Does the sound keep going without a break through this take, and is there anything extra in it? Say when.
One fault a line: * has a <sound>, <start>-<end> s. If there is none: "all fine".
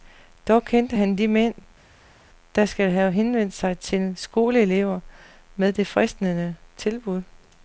all fine